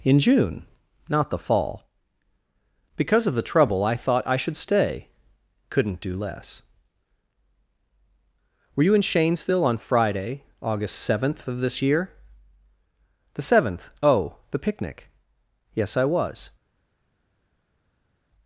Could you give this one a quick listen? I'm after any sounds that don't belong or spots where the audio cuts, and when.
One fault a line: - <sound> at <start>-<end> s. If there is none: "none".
none